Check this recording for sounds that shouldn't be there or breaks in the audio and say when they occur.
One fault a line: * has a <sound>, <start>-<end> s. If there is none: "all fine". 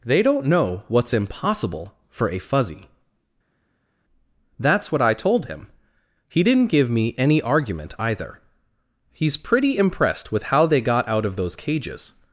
all fine